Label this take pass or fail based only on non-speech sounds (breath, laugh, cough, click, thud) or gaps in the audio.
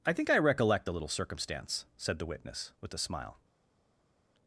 pass